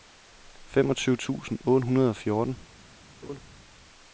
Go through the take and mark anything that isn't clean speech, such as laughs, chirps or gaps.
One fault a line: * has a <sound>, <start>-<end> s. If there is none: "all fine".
* has a laugh, 3.2-3.4 s